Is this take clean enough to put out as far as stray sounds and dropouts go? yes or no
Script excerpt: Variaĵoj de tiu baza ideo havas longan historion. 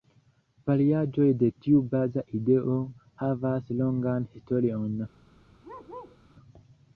no